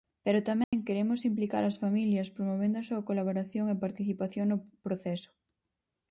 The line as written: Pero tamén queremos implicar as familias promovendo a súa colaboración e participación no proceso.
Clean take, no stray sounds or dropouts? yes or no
no